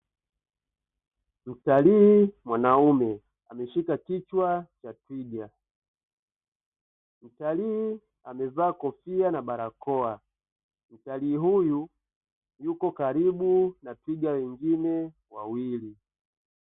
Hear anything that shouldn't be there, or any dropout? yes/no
no